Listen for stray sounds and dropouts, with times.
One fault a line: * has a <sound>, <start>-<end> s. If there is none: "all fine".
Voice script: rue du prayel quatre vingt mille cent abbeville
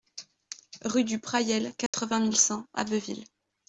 * has a dropout, 1.9-1.9 s